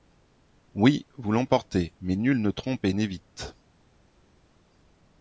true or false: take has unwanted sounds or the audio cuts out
false